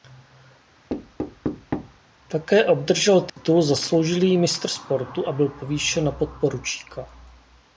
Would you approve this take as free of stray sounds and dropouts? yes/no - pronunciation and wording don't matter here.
no